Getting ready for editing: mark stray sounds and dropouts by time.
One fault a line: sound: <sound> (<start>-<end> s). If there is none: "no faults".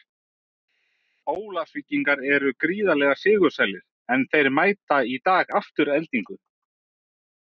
no faults